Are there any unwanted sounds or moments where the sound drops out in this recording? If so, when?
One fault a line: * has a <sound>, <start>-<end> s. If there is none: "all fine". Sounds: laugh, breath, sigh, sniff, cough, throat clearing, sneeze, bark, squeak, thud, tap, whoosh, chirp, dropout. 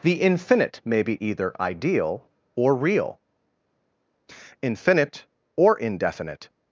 all fine